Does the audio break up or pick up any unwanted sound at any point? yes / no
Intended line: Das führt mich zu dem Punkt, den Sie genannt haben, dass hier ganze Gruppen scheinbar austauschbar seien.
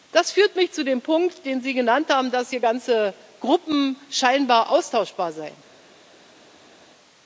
no